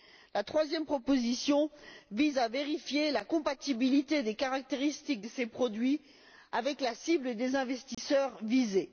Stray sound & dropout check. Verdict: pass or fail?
fail